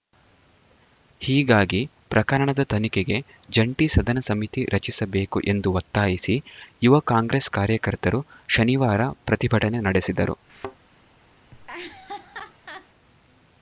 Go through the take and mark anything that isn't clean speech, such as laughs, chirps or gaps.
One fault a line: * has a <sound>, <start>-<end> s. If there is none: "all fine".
* has a thud, 10.5-10.8 s
* has a laugh, 11.5-12.9 s